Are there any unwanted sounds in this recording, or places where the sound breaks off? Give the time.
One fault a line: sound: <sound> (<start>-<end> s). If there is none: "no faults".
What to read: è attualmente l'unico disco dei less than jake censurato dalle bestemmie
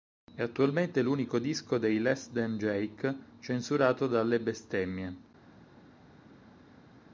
no faults